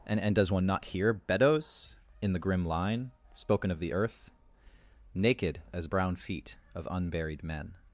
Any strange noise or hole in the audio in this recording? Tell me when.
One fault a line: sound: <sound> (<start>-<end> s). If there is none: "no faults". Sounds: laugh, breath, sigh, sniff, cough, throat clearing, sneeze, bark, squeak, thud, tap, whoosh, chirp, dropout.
no faults